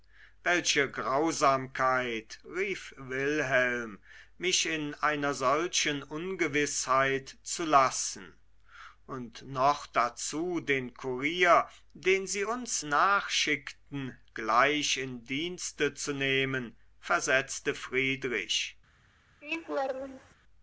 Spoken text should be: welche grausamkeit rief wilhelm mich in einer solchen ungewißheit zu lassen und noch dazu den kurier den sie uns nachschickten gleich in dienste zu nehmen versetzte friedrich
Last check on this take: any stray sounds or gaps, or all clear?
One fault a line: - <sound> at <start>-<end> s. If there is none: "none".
- laugh at 19.4-20.4 s